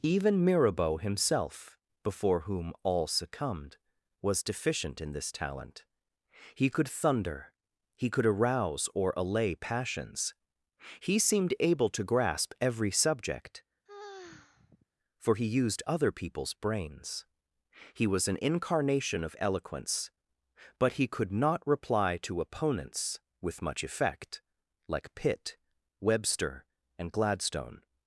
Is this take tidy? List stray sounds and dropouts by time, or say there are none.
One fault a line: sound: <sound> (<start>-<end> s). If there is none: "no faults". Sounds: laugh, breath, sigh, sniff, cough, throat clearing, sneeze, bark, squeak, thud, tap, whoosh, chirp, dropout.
sound: sigh (13.9-14.9 s)